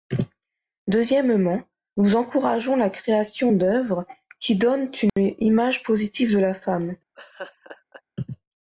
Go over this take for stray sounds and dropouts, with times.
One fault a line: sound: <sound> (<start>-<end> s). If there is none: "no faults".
sound: dropout (5.1-5.2 s)
sound: laugh (7.1-8.0 s)